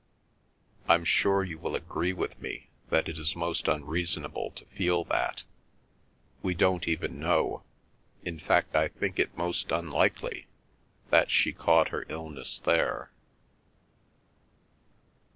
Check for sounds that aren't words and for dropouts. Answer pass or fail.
pass